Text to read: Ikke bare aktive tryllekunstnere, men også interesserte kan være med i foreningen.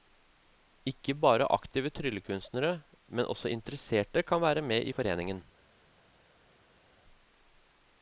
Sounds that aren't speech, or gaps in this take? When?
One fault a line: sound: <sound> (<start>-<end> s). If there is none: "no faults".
no faults